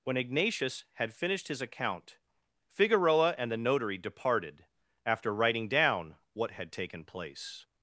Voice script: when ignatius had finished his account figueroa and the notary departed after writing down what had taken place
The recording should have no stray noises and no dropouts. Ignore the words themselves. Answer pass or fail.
pass